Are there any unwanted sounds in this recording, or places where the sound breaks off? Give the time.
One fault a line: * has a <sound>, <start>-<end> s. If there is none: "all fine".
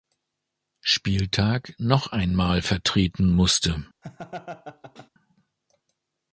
* has a laugh, 4.0-5.1 s